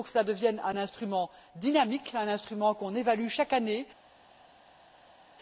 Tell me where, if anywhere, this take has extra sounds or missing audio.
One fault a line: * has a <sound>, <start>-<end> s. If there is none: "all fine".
all fine